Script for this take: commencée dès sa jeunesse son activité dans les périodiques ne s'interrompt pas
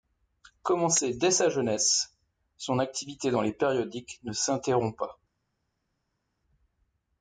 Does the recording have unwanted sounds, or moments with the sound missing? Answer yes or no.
no